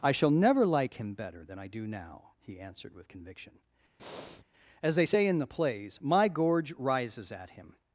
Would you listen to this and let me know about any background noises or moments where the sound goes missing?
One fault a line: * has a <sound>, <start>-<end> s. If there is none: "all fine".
* has a breath, 4.0-4.4 s